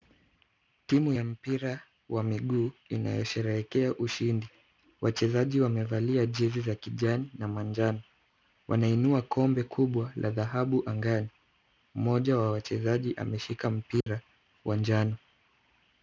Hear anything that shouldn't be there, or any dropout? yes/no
yes